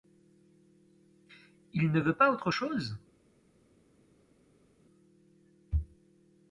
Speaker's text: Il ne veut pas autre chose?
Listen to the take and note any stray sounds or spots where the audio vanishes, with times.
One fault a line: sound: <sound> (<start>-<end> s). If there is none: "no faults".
no faults